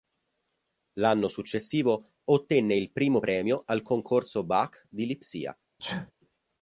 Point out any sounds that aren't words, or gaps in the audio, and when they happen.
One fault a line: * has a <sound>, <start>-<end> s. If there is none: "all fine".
* has a sneeze, 5.8-6.1 s